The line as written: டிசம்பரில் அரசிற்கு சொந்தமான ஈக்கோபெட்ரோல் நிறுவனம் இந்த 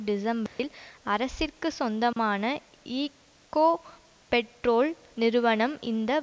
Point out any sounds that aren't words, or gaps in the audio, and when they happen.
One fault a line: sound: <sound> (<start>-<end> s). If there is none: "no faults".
sound: dropout (0.5-0.6 s)
sound: dropout (2.1-2.2 s)